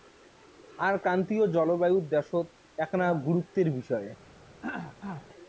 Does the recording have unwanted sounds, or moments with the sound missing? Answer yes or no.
yes